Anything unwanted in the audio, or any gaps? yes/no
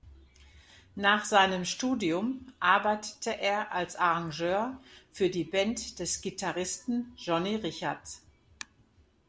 no